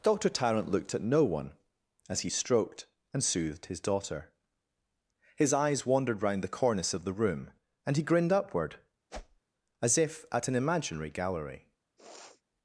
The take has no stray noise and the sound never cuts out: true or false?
false